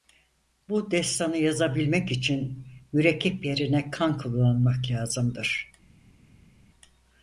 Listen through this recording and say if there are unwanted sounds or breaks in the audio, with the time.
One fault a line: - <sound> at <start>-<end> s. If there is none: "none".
none